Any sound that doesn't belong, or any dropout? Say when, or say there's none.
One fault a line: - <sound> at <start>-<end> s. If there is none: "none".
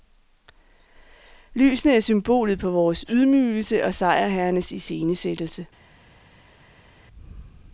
none